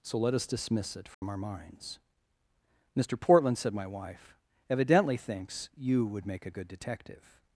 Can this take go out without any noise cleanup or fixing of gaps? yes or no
no